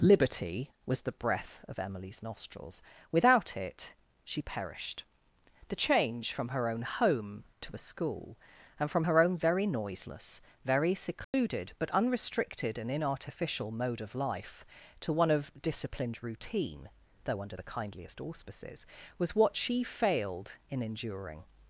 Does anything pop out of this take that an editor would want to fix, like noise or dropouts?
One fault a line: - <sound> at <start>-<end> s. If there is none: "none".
- dropout at 11.2-11.3 s